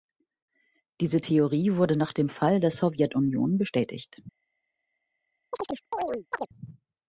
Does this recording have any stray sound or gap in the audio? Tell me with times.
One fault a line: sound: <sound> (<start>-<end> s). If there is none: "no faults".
sound: chirp (5.5-6.5 s)